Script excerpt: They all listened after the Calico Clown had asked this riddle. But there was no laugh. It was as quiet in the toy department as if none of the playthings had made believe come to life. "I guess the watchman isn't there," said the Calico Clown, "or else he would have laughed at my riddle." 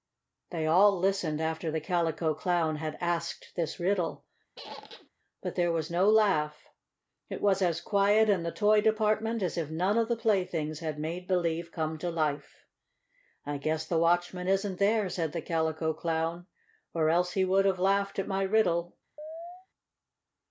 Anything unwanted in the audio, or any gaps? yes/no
yes